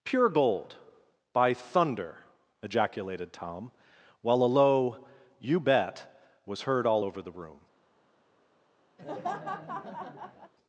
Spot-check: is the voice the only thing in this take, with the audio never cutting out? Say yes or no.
no